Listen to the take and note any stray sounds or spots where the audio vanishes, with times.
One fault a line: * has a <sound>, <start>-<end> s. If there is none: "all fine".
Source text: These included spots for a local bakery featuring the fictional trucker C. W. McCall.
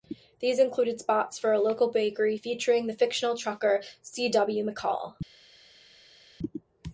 all fine